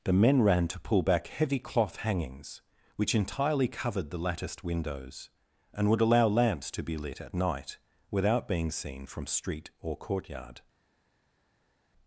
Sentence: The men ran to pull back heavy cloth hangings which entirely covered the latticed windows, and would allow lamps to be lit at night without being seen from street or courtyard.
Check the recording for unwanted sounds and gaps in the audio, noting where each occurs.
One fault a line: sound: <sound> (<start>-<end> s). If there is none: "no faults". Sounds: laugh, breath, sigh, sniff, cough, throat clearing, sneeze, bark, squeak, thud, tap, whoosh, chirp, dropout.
no faults